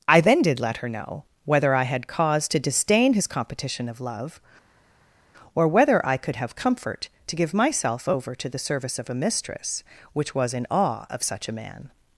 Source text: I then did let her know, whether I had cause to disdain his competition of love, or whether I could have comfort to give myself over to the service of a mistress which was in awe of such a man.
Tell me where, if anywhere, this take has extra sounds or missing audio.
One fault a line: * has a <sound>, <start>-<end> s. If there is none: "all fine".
all fine